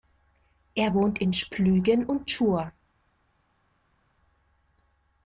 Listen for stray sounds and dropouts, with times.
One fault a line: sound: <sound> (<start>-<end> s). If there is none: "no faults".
no faults